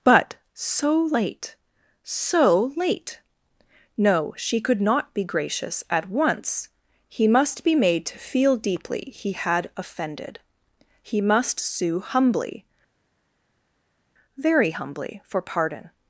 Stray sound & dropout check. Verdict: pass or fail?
pass